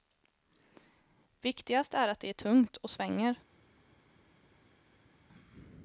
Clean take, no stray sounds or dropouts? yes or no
yes